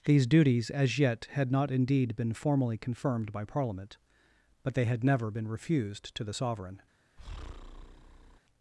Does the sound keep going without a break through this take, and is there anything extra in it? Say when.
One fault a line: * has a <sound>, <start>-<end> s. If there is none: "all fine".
* has a breath, 7.2-8.4 s